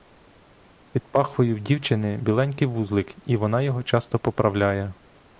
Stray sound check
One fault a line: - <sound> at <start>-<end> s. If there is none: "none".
none